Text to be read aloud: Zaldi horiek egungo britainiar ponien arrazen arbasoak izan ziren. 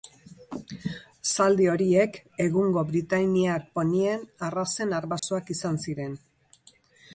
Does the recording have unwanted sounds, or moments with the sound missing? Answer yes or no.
yes